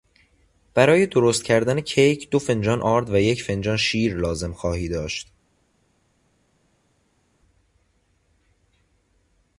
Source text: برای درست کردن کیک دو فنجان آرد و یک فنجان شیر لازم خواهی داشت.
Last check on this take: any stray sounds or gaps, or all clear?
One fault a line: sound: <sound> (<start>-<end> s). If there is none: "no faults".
no faults